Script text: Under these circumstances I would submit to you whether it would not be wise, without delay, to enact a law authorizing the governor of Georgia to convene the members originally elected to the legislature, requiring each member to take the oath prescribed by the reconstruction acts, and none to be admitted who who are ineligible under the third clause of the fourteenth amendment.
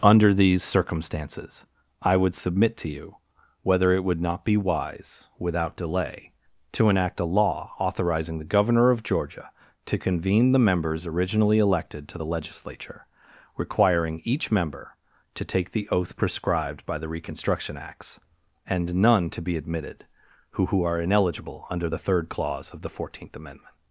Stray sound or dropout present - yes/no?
no